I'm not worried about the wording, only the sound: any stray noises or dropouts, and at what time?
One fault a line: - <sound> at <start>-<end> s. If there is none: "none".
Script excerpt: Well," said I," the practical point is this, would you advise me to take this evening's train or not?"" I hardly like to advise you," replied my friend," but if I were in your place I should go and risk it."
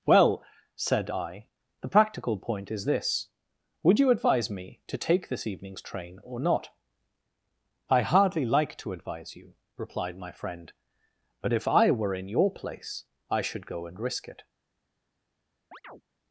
- chirp at 15.7-16.0 s